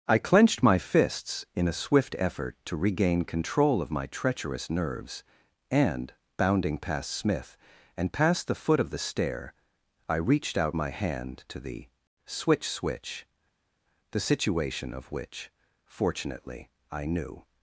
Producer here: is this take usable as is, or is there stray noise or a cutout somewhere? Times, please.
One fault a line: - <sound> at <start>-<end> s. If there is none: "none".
none